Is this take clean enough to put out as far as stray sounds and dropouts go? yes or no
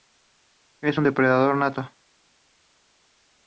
yes